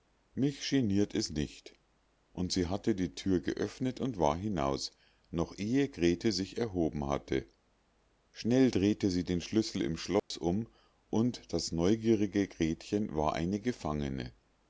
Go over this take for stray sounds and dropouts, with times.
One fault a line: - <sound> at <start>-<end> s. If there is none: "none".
- dropout at 10.2-10.3 s